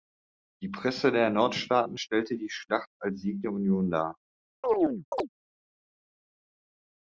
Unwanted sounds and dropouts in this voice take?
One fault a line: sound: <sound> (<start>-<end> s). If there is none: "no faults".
sound: chirp (4.6-5.3 s)